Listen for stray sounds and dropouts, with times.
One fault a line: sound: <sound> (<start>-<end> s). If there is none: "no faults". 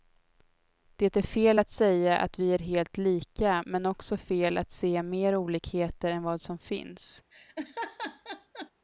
sound: laugh (7.3-8.7 s)